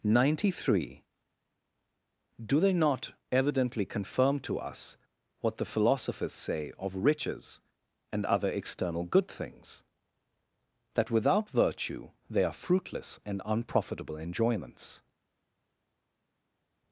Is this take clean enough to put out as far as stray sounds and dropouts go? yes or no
yes